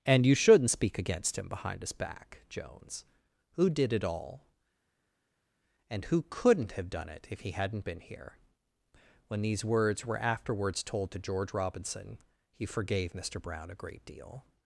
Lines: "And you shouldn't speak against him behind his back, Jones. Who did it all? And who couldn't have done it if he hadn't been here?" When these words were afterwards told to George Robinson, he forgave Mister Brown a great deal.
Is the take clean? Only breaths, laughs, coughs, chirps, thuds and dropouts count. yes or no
yes